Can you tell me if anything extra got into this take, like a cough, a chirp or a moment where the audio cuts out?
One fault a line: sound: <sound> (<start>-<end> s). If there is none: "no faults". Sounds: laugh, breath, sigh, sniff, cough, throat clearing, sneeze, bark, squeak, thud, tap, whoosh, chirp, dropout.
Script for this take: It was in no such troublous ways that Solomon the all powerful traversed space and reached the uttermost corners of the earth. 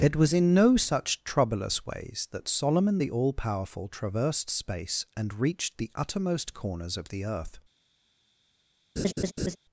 sound: laugh (9.0-9.6 s)